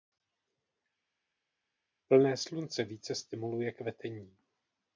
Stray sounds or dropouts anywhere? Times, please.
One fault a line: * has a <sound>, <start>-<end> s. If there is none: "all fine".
all fine